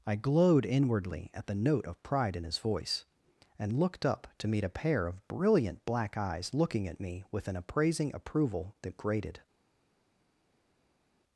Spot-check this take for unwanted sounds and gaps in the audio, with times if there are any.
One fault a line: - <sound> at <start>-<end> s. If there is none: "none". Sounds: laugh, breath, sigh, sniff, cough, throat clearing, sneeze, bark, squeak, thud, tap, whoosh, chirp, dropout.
none